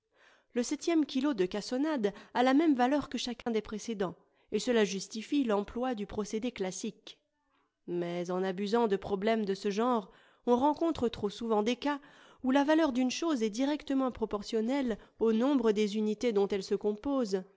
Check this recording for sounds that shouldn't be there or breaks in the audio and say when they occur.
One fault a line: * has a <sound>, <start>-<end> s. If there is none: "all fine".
* has a dropout, 3.4-3.5 s